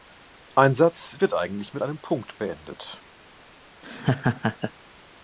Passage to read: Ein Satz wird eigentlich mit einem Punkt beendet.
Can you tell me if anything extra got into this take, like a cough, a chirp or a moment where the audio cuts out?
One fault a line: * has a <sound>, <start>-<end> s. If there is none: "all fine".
* has a laugh, 3.8-4.7 s